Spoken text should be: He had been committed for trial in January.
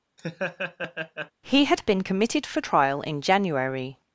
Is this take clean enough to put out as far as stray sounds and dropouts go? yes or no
no